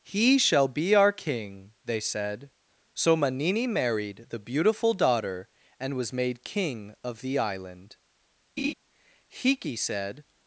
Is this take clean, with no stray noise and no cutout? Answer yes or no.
no